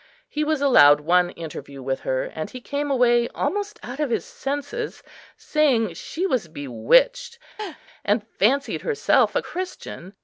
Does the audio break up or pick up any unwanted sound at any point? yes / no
yes